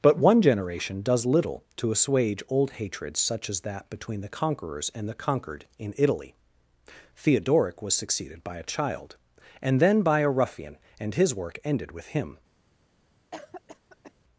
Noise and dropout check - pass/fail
fail